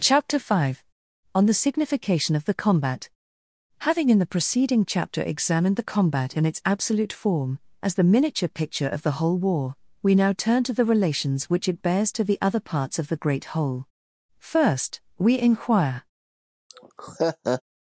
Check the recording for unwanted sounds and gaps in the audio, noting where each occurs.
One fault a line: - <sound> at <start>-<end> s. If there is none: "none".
- laugh at 16.7-17.6 s